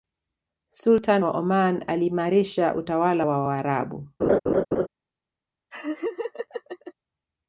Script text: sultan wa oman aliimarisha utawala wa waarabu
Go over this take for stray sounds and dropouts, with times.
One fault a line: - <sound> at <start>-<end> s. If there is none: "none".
- laugh at 4.2-4.9 s
- laugh at 5.7-6.9 s